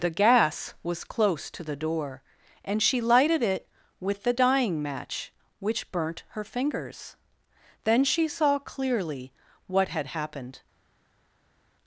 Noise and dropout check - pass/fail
pass